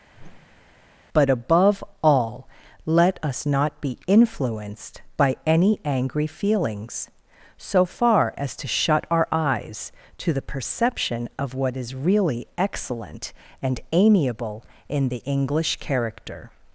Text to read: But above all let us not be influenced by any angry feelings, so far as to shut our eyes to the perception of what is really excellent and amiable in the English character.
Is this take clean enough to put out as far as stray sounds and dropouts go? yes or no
no